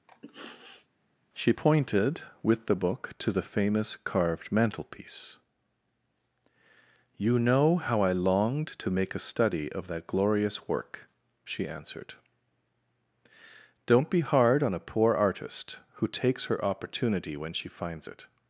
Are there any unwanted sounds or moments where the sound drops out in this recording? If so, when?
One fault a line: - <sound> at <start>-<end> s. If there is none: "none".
- sniff at 0.1-0.9 s